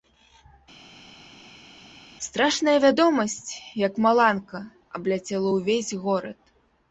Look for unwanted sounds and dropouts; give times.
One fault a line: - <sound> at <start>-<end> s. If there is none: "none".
none